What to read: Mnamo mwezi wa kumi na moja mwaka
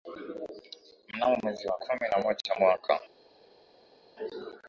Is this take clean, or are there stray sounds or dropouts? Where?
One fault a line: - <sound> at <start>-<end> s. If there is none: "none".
none